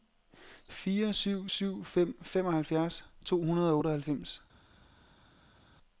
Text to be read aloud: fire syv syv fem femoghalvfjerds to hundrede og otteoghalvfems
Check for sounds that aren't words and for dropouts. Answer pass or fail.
pass